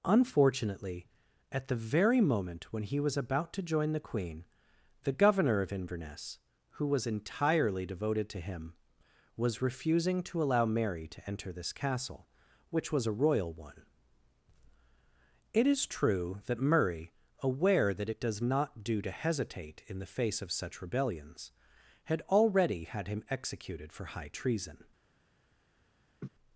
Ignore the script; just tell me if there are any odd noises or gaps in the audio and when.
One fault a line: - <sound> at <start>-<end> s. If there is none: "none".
- laugh at 26.2-26.3 s